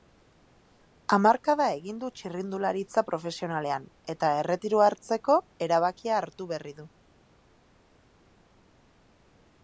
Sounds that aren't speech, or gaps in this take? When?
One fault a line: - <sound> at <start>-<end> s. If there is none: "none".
none